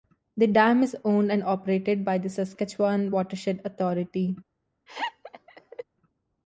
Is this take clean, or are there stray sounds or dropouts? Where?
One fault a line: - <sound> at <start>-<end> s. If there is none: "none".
- laugh at 4.9-5.8 s